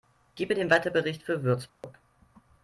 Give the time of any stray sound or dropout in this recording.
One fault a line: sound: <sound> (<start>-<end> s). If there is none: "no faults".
sound: dropout (1.7-1.8 s)